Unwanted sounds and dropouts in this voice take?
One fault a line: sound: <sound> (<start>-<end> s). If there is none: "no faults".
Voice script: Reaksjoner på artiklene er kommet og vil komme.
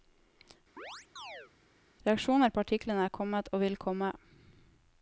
sound: chirp (0.8-1.5 s)